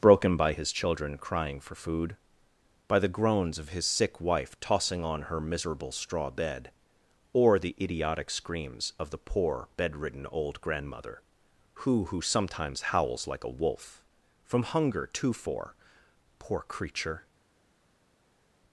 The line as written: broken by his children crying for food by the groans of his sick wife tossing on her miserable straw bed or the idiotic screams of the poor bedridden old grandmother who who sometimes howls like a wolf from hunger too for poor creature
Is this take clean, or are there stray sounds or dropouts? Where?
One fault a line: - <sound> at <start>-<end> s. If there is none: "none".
none